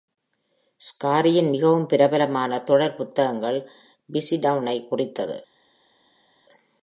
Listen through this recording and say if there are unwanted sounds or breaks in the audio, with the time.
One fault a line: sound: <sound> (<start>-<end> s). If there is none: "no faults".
no faults